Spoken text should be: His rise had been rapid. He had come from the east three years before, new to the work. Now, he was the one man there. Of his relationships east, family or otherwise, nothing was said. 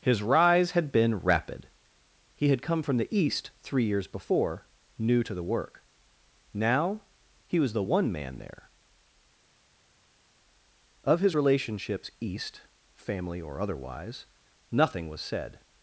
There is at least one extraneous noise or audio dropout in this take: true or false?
false